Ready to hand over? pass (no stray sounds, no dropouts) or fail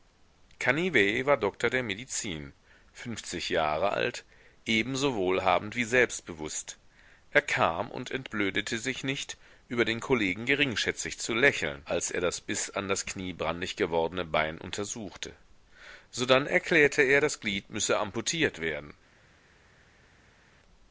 pass